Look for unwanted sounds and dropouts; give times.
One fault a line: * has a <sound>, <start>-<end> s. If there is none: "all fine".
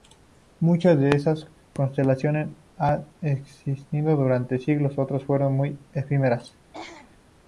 * has a throat clearing, 6.7-7.2 s